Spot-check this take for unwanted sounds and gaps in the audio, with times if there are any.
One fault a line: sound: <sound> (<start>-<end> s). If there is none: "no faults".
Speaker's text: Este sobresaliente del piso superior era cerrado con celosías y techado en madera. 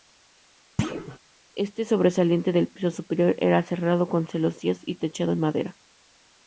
sound: thud (0.8-1.2 s)